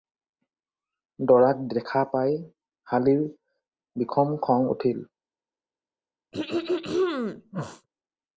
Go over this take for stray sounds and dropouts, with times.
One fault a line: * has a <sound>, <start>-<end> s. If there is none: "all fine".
* has a throat clearing, 6.3-7.9 s